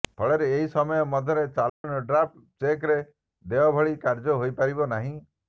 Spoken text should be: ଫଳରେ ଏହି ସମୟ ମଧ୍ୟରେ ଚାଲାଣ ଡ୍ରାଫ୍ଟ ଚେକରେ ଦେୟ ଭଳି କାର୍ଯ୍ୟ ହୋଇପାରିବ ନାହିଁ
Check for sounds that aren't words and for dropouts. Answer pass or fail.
fail